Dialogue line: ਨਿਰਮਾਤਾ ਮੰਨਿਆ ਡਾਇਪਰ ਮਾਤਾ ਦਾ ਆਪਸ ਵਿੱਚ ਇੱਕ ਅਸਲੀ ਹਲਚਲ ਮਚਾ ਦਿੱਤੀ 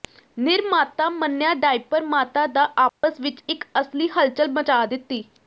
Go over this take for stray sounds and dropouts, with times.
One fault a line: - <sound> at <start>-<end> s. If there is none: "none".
- dropout at 2.9-3.0 s